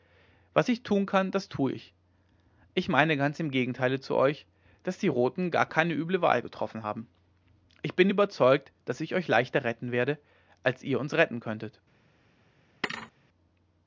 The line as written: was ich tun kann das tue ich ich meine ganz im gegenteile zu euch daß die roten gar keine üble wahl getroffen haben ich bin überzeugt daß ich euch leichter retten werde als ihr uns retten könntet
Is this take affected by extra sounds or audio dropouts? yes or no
yes